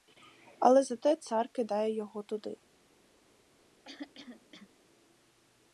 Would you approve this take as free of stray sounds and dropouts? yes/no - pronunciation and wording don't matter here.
no